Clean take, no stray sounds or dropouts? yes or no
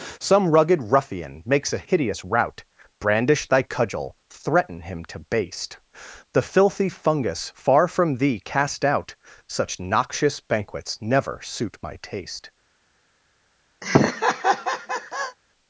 no